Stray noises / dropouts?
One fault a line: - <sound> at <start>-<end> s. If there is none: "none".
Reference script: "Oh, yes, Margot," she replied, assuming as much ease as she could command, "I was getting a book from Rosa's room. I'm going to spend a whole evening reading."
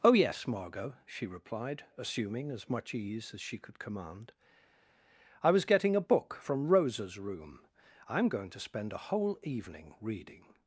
none